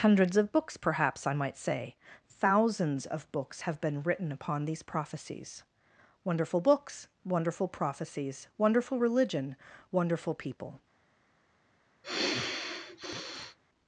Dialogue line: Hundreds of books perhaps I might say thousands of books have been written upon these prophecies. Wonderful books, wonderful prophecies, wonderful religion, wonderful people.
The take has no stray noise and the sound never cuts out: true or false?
false